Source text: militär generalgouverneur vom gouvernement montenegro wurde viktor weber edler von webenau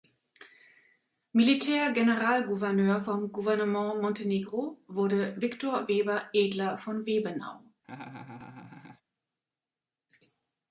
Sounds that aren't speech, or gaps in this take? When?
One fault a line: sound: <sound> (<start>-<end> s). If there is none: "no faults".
sound: laugh (7.8-9.0 s)